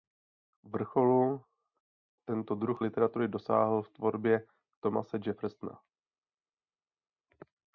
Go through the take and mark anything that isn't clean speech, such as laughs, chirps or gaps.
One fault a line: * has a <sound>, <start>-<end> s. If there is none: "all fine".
all fine